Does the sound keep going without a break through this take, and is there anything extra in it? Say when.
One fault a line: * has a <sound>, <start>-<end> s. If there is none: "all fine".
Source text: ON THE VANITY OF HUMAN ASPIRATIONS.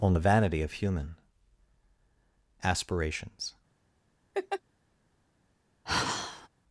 * has a laugh, 4.3-4.6 s
* has a sigh, 5.9-6.5 s